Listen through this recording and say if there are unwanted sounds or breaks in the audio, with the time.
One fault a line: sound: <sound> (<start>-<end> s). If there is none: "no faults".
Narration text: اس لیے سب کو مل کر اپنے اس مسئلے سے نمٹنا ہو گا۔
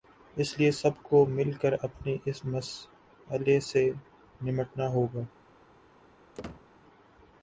sound: squeak (6.3-6.7 s)